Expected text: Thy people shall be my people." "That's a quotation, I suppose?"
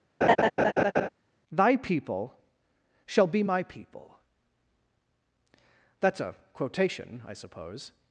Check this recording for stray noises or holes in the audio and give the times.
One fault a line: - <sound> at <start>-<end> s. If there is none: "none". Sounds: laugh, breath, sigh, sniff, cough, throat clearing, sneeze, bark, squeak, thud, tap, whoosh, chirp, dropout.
- laugh at 0.2-1.1 s